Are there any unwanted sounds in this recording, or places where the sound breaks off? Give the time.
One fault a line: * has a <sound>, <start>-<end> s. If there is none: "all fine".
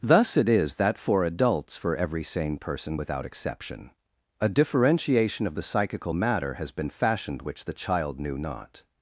all fine